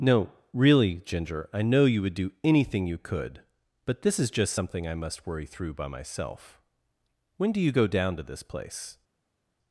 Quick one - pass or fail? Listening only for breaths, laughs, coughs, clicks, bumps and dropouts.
pass